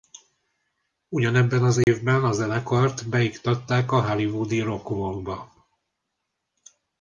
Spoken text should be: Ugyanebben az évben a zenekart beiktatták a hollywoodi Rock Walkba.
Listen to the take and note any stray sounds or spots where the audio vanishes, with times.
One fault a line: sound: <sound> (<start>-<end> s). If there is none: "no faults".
sound: dropout (1.8-1.9 s)